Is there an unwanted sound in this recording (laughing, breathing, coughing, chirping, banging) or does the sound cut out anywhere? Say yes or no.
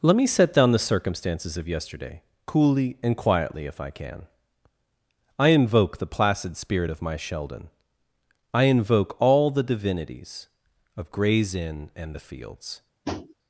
yes